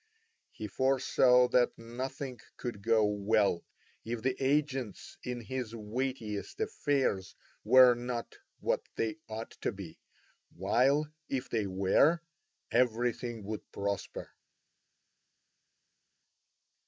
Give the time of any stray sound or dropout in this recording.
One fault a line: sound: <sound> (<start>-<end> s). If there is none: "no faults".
no faults